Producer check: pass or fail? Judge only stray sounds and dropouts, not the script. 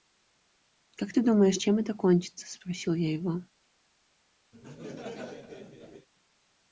fail